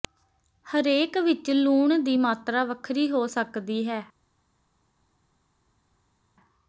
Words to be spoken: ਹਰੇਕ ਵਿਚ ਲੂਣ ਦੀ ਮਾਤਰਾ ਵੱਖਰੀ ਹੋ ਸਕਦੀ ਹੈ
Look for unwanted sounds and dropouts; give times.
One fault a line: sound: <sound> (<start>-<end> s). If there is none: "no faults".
no faults